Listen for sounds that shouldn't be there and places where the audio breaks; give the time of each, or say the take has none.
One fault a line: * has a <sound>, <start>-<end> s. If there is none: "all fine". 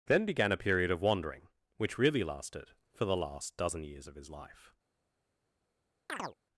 * has a chirp, 6.1-6.4 s